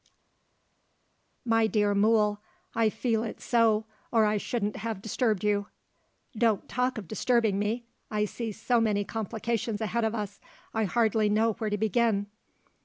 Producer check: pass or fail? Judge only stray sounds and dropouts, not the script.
pass